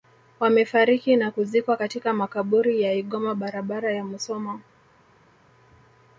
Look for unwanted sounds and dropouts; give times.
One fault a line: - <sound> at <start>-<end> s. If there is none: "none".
none